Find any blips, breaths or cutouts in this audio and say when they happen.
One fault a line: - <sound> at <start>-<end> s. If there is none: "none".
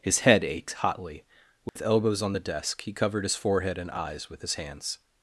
- dropout at 1.7-1.8 s